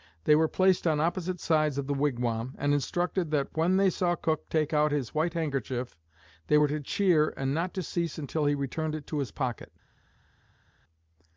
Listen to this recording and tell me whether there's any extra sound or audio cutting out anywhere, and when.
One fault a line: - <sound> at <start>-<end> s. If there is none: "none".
none